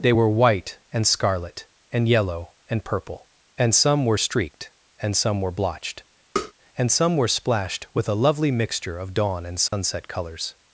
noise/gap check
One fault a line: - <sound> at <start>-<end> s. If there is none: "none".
- tap at 6.4-6.5 s
- dropout at 9.7-9.7 s